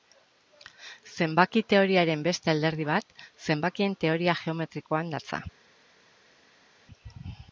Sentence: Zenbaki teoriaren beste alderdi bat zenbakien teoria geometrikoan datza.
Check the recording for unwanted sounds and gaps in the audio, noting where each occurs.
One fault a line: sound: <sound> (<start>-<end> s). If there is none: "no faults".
no faults